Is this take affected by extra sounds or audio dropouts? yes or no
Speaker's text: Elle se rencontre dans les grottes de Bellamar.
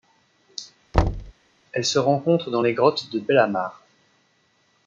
yes